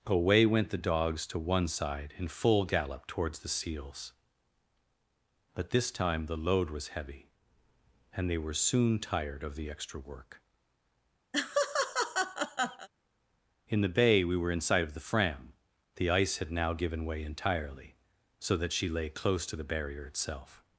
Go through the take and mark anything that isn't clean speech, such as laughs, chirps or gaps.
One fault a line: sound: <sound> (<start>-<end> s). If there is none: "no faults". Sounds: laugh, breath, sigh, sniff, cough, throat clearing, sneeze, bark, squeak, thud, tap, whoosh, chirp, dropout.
sound: laugh (11.3-12.9 s)